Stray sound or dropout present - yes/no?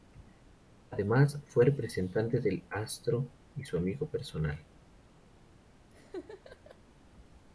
yes